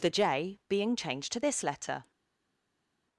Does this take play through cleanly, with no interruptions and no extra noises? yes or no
yes